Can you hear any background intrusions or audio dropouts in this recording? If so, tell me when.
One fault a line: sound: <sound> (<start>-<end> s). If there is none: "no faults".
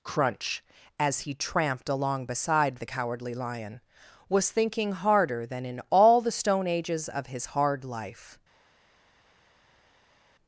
no faults